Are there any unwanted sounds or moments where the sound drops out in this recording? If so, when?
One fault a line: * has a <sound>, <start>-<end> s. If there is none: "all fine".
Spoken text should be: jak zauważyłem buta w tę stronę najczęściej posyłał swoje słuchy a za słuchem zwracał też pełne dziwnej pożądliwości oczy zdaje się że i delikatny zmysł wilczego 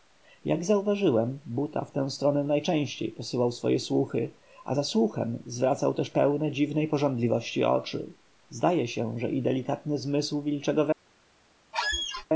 * has a squeak, 11.7-12.3 s